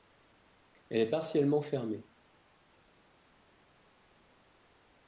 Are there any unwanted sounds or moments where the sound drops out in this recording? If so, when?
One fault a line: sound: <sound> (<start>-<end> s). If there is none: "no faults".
no faults